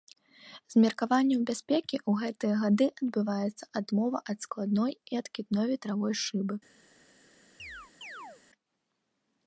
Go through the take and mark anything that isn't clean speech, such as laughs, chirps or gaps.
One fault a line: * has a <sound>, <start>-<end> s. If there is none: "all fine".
* has a chirp, 7.6-8.4 s